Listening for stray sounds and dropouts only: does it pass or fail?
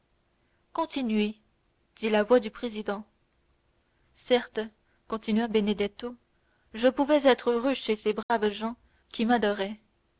fail